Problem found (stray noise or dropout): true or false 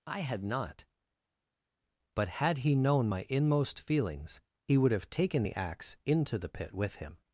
false